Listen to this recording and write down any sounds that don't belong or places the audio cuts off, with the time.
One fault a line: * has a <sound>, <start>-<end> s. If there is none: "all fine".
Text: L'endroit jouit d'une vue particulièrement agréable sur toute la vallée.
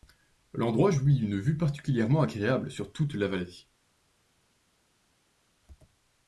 all fine